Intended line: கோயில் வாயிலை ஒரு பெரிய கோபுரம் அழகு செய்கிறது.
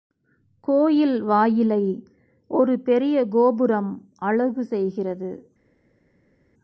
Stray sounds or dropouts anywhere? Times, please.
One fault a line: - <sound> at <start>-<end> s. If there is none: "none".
none